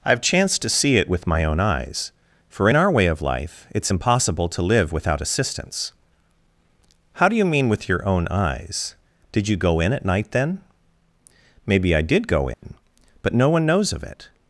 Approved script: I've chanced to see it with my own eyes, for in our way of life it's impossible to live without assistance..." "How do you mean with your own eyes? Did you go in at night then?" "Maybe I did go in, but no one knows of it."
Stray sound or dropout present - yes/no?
yes